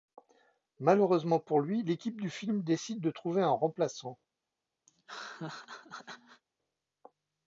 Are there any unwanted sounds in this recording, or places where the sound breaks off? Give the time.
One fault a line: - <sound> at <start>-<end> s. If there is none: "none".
- laugh at 4.9-6.4 s